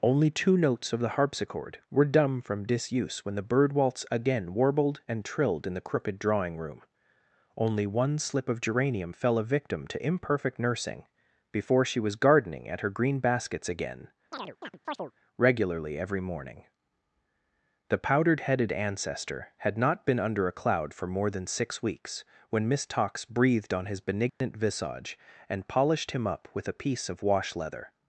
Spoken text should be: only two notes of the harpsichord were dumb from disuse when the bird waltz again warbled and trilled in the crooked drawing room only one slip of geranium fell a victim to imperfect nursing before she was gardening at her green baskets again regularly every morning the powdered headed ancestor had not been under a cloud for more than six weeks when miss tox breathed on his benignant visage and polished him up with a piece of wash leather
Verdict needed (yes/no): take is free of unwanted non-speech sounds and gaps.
no